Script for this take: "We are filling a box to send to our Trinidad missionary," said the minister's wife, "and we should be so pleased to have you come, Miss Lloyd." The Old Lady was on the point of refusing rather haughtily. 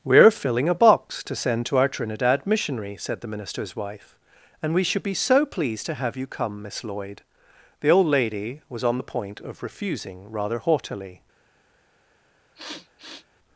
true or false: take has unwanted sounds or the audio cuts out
true